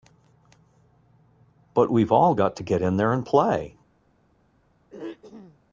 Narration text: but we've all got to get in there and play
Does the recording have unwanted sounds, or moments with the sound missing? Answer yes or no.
yes